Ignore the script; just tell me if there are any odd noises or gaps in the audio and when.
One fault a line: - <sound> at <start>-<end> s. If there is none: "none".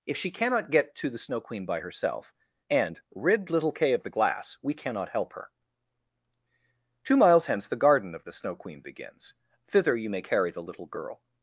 none